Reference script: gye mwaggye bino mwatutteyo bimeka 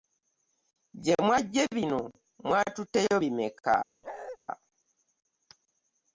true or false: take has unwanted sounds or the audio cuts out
true